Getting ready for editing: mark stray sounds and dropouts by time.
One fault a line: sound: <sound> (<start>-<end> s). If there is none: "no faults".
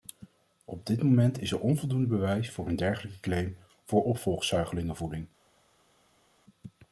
no faults